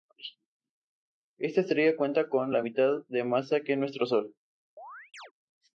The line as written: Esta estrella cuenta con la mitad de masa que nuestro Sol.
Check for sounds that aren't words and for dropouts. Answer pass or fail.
fail